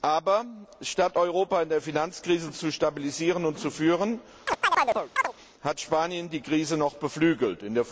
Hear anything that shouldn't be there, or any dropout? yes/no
yes